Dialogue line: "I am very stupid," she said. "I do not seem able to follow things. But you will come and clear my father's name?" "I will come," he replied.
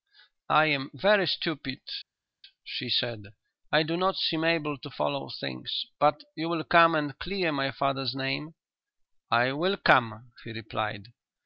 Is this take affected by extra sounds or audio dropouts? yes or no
no